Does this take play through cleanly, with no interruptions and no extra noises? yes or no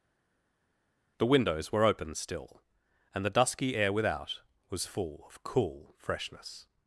yes